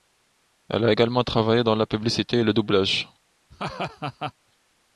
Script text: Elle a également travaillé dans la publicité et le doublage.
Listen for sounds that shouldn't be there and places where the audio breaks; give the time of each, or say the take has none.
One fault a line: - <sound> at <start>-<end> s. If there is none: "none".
- laugh at 3.5-4.3 s